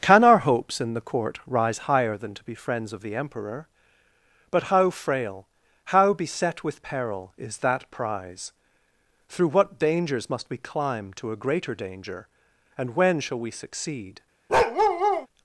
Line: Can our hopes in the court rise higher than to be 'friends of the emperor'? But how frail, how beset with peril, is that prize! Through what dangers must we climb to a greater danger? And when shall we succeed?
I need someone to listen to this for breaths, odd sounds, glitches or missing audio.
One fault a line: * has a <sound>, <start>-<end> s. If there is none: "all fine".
* has a bark, 14.5-15.3 s